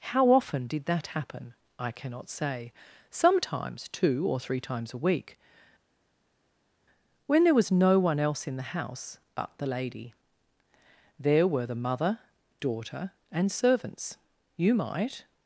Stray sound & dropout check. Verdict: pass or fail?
pass